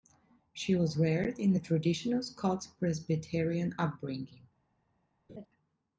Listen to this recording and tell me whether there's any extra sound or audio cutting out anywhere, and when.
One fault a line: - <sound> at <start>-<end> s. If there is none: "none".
- laugh at 5.3-5.5 s